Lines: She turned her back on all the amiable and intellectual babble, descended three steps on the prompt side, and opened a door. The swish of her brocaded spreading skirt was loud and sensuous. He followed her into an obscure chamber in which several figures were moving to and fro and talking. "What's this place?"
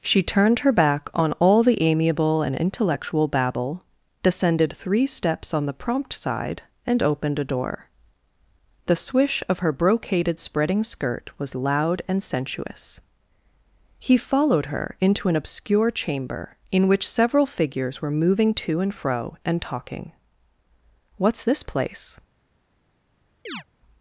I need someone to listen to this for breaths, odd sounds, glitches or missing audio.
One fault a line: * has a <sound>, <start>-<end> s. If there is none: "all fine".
* has a chirp, 23.5-23.6 s